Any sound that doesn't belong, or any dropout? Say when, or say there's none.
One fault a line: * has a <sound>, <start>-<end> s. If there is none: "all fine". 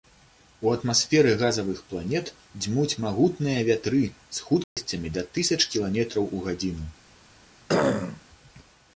* has a dropout, 4.6-4.8 s
* has a throat clearing, 7.7-8.2 s